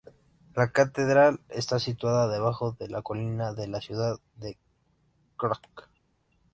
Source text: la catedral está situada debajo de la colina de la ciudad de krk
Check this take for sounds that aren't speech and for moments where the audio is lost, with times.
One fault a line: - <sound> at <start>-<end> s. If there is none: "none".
none